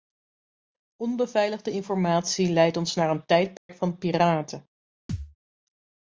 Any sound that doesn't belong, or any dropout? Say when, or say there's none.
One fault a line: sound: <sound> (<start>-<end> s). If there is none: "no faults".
sound: dropout (3.6-3.7 s)
sound: thud (5.1-5.4 s)